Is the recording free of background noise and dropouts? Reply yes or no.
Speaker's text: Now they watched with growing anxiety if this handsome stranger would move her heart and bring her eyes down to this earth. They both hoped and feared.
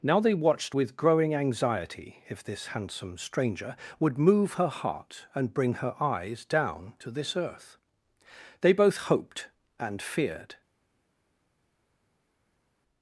yes